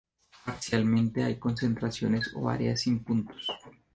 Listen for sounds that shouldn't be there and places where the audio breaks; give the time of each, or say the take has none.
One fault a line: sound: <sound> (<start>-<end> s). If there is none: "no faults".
no faults